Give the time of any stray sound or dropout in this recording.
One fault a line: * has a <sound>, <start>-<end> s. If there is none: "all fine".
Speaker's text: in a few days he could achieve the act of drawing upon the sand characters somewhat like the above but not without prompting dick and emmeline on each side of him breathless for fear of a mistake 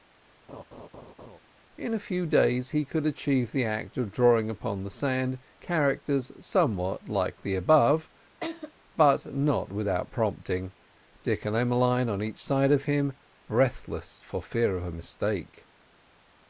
* has a laugh, 0.5-1.4 s
* has a laugh, 8.4-8.7 s